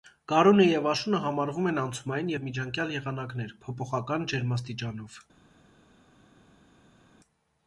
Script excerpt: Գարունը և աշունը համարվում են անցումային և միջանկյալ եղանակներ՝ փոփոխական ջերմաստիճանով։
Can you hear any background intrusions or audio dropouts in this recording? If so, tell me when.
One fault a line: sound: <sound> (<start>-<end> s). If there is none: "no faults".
no faults